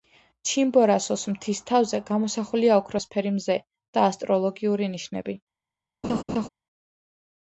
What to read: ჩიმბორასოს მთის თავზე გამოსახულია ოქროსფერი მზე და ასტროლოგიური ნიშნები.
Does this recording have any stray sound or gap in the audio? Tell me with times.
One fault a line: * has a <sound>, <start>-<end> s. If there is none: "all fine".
* has a laugh, 6.0-6.5 s